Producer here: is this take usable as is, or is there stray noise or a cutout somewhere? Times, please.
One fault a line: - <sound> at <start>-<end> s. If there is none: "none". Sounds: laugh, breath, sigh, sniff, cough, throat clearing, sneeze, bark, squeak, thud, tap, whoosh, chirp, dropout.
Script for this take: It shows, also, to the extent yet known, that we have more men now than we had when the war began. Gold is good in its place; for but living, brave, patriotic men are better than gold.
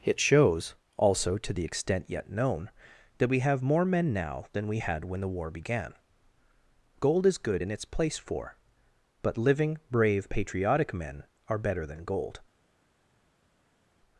none